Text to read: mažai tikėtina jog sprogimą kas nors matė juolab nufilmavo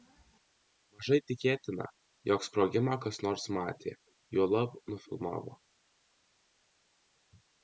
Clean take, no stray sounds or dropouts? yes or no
yes